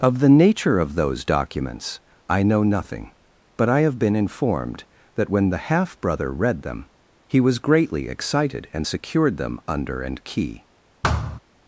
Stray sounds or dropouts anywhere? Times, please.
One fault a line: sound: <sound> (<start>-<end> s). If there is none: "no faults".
sound: thud (11.0-11.4 s)